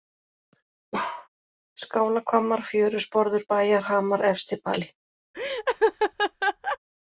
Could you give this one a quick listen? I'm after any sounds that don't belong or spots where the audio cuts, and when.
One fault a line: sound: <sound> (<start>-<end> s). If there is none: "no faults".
sound: bark (0.9-1.3 s)
sound: laugh (5.3-6.8 s)